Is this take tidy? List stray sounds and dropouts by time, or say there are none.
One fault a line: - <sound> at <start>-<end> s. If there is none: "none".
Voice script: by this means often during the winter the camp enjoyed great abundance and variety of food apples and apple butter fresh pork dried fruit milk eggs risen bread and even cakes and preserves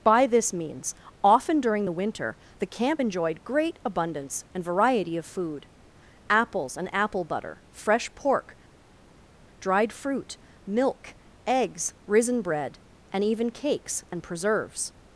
none